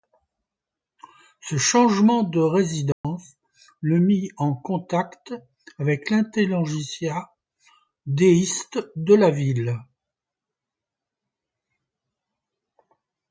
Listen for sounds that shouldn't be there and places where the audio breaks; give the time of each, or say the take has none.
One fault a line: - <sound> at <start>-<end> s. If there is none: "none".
- dropout at 2.9-3.0 s